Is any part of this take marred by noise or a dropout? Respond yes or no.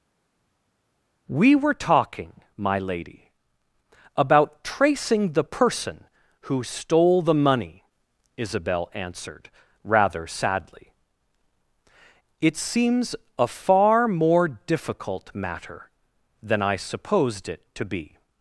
no